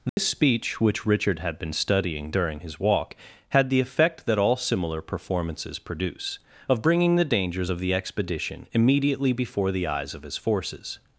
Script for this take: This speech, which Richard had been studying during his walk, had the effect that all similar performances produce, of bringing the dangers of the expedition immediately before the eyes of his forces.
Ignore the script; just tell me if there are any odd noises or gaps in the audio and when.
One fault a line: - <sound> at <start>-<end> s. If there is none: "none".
- dropout at 0.1-0.2 s